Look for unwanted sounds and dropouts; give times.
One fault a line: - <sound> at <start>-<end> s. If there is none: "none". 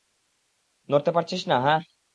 none